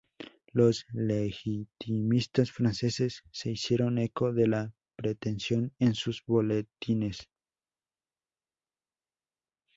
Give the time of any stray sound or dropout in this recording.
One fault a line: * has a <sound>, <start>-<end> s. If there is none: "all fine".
all fine